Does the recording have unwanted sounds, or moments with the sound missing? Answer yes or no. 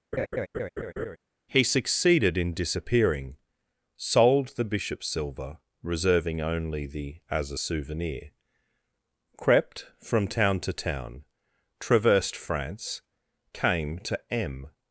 yes